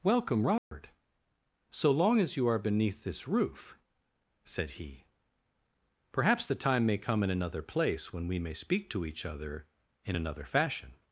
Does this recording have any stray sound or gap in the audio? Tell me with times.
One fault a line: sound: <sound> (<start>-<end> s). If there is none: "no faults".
sound: dropout (0.6-0.7 s)